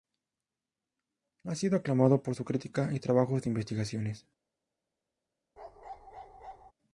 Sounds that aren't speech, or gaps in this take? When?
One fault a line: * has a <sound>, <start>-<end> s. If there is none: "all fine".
* has a bark, 5.6-6.7 s